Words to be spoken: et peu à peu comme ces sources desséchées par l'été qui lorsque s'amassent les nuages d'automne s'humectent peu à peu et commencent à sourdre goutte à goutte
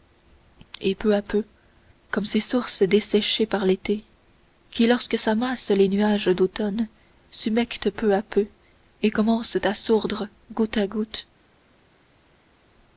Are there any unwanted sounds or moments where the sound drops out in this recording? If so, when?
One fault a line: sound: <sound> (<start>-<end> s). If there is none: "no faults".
no faults